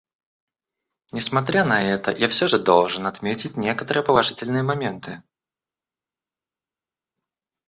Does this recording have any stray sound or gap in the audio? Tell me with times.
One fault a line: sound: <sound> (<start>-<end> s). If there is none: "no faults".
no faults